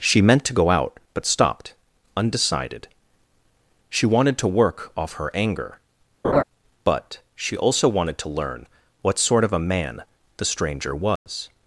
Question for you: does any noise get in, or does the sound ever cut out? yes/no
yes